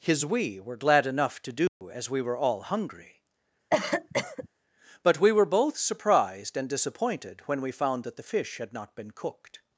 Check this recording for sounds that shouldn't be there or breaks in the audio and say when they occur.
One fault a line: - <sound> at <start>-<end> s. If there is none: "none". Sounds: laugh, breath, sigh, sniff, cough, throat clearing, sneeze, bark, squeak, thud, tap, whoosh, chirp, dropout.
- dropout at 1.7-1.8 s
- cough at 3.7-4.5 s